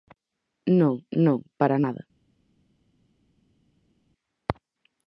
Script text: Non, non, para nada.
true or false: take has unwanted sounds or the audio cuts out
false